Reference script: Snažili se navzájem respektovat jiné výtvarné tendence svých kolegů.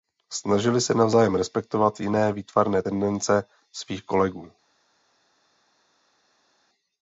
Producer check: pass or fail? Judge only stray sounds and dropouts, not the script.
pass